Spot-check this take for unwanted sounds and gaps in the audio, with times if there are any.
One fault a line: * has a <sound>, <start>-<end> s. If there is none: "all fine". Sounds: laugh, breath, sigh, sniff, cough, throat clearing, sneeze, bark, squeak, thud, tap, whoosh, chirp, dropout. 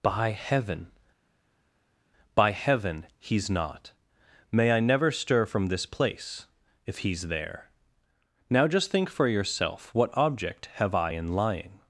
all fine